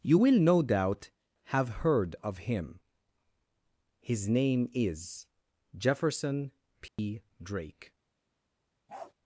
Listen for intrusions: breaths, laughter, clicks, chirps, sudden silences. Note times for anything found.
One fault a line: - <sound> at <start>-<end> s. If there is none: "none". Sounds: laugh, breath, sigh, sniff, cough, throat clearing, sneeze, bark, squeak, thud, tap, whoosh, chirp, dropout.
- dropout at 6.9-7.0 s
- bark at 8.9-9.1 s